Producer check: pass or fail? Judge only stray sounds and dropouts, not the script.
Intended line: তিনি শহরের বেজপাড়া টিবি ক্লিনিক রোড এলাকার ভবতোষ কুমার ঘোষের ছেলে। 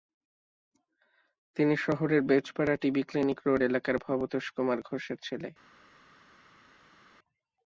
pass